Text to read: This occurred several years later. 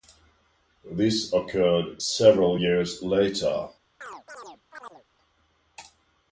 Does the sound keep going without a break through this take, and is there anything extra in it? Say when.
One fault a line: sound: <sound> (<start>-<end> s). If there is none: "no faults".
sound: chirp (4.0-5.0 s)